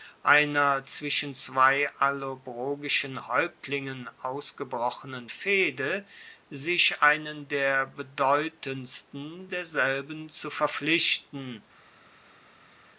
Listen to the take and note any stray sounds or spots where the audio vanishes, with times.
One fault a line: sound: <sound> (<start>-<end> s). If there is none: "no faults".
no faults